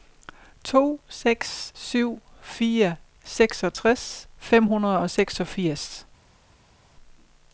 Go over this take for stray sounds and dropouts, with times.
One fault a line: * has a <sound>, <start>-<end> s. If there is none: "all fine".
all fine